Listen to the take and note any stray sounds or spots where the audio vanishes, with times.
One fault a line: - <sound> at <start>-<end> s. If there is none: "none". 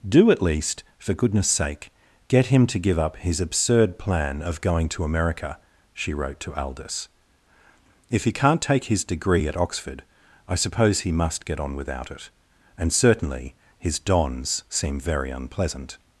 none